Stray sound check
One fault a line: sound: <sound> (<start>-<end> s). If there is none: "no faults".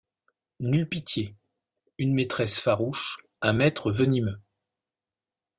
no faults